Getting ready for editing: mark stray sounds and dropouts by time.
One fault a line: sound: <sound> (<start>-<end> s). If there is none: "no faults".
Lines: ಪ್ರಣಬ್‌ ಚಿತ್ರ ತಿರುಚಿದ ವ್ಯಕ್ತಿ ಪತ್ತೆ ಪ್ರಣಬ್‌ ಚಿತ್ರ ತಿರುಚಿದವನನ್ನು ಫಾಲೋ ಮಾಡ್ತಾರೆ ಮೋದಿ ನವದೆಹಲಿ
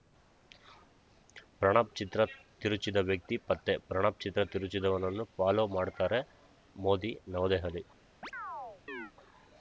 sound: chirp (8.2-9.1 s)